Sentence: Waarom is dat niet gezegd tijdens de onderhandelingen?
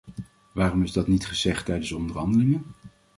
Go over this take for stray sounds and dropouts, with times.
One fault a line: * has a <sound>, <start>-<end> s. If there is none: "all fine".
all fine